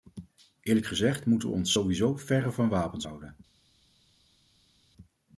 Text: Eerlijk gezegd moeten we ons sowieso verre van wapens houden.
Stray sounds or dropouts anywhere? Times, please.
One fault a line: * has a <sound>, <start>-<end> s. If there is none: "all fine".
all fine